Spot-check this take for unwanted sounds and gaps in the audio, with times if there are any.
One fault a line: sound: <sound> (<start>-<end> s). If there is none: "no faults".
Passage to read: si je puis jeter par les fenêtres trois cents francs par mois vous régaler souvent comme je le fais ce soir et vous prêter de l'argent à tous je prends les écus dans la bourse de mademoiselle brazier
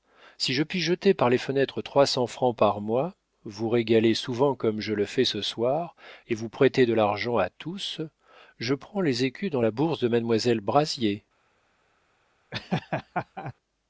sound: laugh (12.5-13.5 s)